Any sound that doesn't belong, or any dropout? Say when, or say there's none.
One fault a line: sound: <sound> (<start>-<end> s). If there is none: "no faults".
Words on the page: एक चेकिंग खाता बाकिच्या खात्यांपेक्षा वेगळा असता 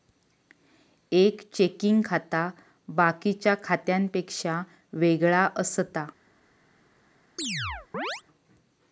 sound: chirp (7.4-8.2 s)